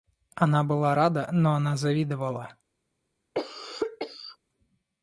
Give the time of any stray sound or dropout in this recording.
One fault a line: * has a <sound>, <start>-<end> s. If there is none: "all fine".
* has a cough, 3.3-4.4 s